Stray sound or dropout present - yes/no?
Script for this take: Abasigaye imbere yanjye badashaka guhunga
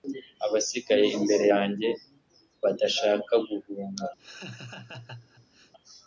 yes